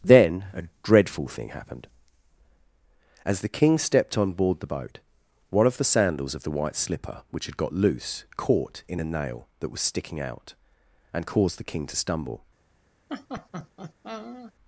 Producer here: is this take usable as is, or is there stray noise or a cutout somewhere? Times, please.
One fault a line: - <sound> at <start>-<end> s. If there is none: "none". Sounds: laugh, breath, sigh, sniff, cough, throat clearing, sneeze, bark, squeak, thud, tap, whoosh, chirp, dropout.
- laugh at 13.1-14.5 s